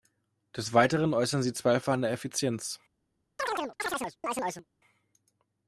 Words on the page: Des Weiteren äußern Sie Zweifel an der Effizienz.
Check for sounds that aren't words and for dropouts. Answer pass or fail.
fail